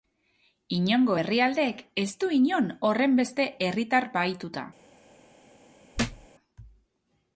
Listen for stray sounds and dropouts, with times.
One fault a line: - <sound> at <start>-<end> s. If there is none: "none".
- thud at 5.9-6.3 s